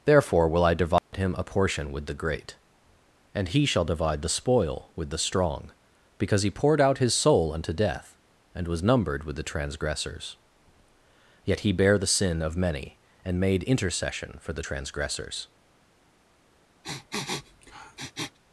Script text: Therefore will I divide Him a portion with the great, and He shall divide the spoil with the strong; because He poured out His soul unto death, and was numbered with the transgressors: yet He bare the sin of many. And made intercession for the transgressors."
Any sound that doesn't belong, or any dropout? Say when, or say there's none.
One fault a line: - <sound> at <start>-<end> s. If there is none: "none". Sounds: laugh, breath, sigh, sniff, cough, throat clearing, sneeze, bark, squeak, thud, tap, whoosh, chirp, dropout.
- dropout at 1.0-1.1 s
- sniff at 16.8-18.4 s